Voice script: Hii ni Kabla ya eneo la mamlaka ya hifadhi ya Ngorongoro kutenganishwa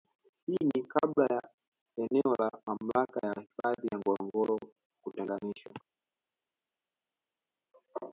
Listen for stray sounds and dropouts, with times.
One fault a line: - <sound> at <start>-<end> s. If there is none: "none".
none